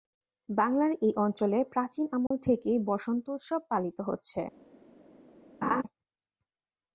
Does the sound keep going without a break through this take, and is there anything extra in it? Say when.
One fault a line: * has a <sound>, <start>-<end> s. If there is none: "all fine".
* has a dropout, 2.3-2.3 s
* has a laugh, 5.6-5.8 s